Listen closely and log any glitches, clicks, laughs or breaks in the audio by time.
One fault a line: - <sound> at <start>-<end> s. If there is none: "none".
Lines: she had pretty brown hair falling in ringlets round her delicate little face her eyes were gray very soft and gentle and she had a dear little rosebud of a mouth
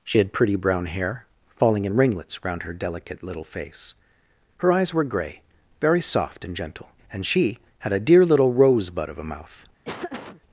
- laugh at 9.8-10.4 s